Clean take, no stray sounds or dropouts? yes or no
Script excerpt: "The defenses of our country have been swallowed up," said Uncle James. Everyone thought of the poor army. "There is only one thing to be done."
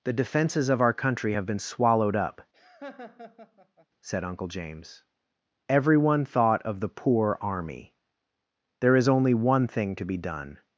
no